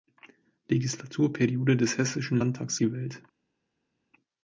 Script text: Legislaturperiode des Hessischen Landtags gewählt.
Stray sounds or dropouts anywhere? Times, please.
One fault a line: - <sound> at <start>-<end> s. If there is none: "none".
none